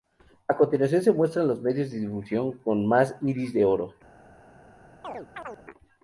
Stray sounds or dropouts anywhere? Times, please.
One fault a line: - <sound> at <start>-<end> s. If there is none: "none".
- chirp at 5.0-5.6 s